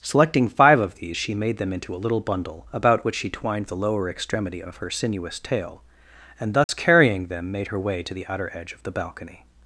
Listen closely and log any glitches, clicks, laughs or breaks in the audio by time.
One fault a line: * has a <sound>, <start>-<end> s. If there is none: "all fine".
* has a dropout, 6.6-6.7 s